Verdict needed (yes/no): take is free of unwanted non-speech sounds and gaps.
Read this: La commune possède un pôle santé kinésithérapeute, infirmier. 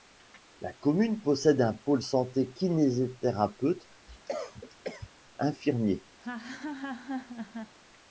no